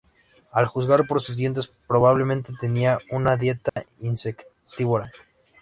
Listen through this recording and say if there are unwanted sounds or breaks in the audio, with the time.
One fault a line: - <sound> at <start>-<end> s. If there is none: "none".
- dropout at 3.7-3.8 s